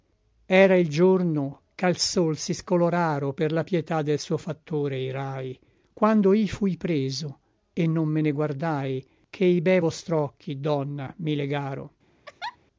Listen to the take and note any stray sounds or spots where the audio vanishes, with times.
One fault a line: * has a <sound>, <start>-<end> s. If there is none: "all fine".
* has a laugh, 12.3-12.6 s